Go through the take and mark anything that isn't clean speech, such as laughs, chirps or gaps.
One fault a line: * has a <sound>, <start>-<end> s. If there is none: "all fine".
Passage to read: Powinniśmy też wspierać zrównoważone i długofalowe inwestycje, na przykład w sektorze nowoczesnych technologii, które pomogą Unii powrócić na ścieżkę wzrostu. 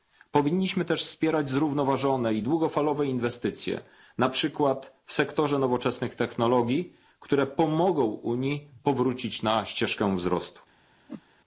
* has a whoosh, 11.1-11.2 s